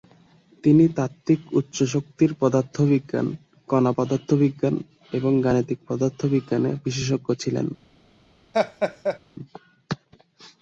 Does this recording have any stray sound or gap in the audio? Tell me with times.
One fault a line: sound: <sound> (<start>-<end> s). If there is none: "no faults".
sound: laugh (8.5-9.2 s)